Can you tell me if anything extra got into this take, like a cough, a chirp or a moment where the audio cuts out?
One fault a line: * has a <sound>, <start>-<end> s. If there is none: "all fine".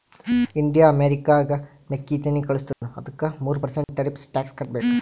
* has a dropout, 2.7-2.8 s
* has a dropout, 3.8-3.9 s